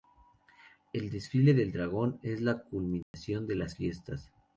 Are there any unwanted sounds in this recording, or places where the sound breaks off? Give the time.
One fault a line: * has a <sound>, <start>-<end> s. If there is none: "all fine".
* has a dropout, 3.0-3.1 s